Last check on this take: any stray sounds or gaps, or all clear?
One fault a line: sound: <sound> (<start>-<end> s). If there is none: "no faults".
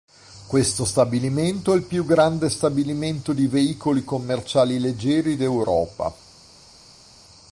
no faults